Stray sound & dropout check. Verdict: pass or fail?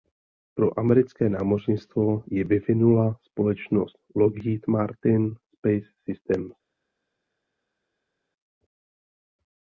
pass